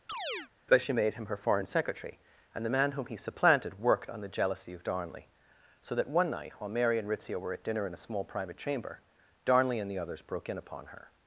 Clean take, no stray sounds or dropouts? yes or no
no